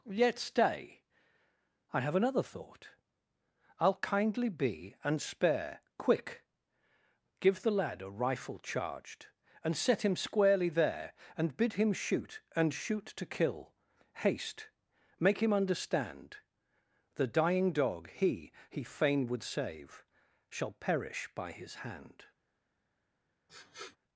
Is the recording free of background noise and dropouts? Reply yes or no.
no